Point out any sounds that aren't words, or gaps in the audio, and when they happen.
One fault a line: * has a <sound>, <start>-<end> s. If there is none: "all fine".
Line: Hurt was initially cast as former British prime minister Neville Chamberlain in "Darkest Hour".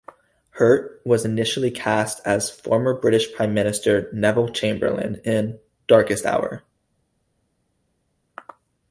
all fine